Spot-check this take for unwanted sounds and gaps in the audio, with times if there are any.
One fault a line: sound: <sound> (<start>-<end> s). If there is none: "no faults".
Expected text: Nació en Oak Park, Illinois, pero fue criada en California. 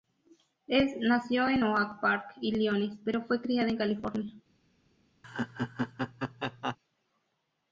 sound: laugh (5.2-6.8 s)